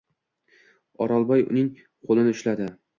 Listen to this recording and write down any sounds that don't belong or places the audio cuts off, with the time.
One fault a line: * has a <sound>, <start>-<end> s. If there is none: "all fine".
all fine